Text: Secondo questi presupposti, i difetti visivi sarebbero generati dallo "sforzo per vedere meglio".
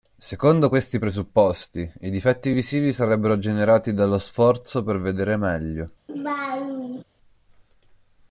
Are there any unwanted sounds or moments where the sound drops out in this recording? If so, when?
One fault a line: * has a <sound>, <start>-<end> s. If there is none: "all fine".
* has a laugh, 6.1-7.0 s